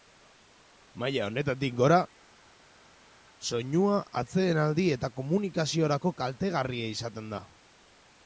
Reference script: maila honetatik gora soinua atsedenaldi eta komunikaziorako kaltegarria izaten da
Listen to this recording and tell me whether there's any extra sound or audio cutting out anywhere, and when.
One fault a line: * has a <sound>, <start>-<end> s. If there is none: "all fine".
all fine